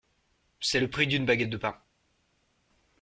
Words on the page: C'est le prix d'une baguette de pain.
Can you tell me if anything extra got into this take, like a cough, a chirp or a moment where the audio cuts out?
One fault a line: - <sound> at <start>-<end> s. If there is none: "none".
none